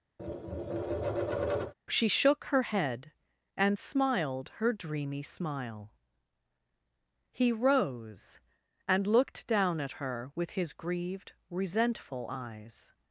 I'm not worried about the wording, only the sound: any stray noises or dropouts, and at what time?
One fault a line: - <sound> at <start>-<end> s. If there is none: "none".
- tap at 0.2-1.7 s